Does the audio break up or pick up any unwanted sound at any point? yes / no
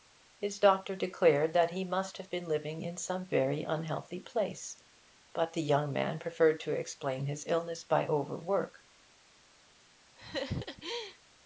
yes